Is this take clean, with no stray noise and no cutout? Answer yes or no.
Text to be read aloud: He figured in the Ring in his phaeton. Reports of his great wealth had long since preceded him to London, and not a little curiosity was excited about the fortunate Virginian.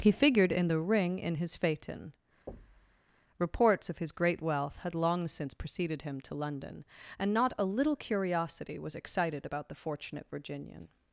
no